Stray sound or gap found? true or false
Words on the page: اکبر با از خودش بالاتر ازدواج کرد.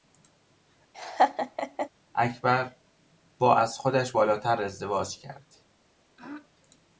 true